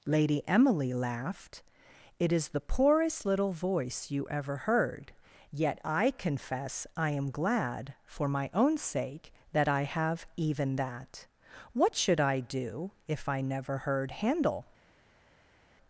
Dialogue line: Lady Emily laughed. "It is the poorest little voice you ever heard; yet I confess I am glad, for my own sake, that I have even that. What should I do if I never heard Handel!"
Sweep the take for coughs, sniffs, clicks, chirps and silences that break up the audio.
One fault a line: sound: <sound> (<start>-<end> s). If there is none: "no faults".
no faults